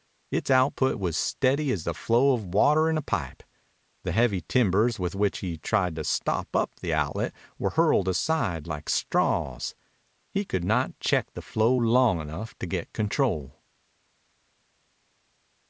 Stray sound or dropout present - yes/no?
no